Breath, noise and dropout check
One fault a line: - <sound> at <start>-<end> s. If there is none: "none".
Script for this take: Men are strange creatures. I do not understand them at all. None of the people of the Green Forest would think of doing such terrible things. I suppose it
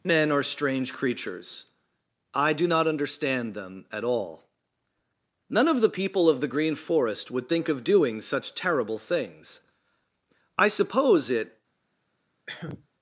- cough at 12.5-12.9 s